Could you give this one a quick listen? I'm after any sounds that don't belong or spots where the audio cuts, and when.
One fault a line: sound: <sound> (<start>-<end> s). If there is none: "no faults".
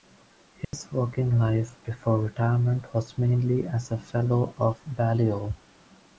sound: dropout (0.6-0.7 s)